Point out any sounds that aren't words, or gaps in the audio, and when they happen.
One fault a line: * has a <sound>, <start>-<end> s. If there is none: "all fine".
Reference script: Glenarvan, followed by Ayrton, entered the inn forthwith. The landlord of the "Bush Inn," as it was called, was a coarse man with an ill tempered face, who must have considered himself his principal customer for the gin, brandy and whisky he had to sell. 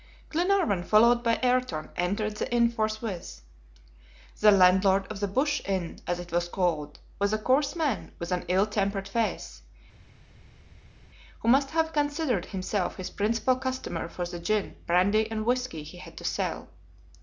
all fine